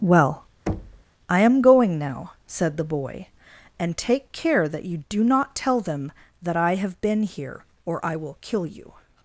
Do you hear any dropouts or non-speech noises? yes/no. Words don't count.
yes